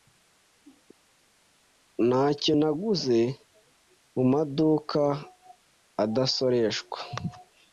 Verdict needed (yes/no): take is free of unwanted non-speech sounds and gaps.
yes